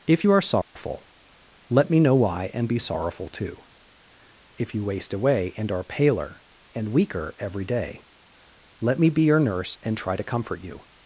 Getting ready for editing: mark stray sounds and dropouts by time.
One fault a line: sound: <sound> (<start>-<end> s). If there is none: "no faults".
sound: dropout (0.6-0.8 s)